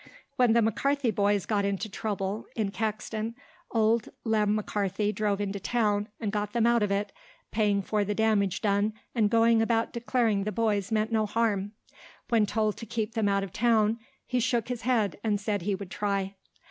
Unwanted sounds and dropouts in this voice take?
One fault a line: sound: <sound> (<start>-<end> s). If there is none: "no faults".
no faults